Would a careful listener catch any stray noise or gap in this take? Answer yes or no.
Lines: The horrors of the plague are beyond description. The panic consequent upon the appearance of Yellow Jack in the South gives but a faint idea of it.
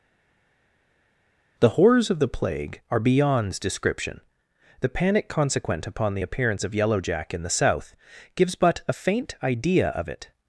no